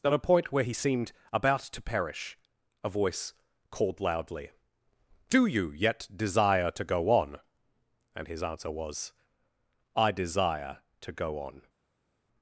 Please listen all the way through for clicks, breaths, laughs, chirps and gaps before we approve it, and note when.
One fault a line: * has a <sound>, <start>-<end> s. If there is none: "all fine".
all fine